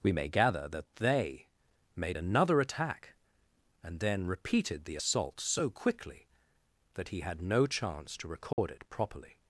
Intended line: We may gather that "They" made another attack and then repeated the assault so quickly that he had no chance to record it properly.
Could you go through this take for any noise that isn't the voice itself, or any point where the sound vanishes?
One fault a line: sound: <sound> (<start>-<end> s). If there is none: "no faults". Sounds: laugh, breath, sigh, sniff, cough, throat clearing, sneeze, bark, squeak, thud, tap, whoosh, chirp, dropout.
sound: dropout (8.5-8.6 s)